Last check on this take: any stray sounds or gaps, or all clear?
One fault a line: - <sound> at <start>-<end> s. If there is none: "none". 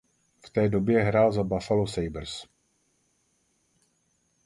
none